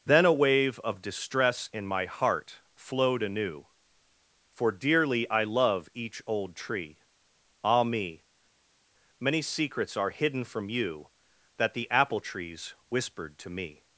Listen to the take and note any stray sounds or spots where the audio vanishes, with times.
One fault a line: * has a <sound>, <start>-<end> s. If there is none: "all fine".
all fine